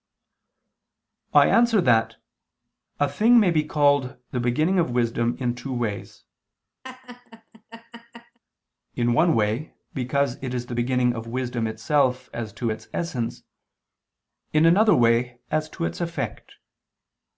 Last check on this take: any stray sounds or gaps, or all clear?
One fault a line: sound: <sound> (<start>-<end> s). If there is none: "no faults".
sound: laugh (6.8-8.4 s)